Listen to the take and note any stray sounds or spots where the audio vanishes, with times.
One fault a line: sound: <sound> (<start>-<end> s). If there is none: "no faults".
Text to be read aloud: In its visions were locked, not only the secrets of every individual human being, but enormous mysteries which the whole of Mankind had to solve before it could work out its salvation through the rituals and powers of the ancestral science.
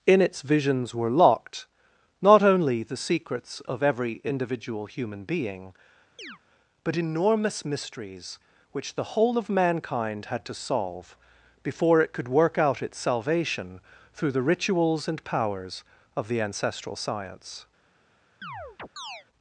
sound: chirp (6.2-6.4 s)
sound: chirp (18.4-19.3 s)